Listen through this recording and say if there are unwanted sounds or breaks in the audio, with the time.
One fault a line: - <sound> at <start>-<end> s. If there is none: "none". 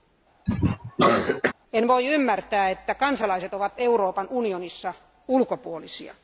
- cough at 0.5-1.5 s